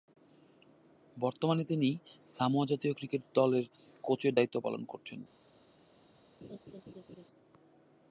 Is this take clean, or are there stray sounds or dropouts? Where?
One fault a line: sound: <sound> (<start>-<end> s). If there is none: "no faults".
sound: laugh (6.4-7.3 s)